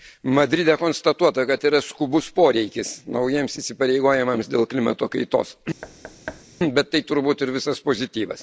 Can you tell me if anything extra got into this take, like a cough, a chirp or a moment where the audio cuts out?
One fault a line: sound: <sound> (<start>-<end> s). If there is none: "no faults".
sound: thud (5.8-6.5 s)